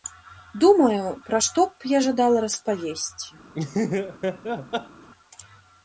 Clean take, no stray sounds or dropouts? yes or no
no